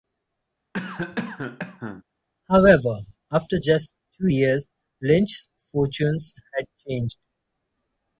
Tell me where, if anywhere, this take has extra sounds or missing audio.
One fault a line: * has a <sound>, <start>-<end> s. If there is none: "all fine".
* has a cough, 0.7-2.0 s